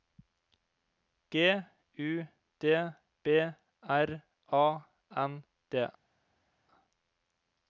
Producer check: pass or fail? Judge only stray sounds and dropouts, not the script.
pass